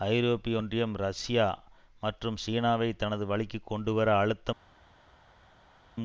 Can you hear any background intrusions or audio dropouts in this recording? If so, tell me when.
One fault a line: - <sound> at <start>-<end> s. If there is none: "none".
none